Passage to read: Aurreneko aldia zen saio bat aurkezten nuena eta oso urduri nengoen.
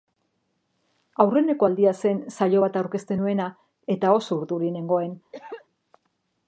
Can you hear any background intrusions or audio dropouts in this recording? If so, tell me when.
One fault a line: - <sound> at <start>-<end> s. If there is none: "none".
- cough at 5.3-5.7 s